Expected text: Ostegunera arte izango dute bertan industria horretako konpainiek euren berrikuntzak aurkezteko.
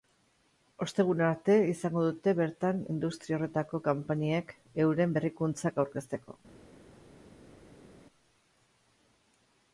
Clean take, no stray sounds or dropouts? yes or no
yes